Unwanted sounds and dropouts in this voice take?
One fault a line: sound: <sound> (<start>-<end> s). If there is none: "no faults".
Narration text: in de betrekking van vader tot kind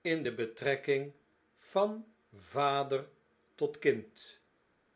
no faults